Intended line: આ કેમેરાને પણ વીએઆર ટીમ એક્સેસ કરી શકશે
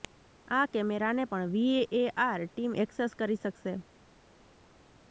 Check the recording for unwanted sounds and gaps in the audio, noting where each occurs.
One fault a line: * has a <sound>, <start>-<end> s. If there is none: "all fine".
all fine